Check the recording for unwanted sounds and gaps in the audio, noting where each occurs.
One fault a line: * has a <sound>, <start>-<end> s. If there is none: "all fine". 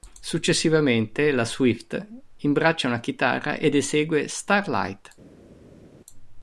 all fine